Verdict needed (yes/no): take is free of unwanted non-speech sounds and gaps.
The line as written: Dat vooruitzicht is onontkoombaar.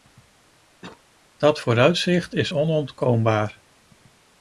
no